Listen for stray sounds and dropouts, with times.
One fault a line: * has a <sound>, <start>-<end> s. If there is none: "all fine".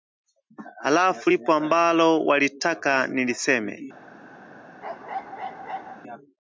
* has a bark, 4.8-6.0 s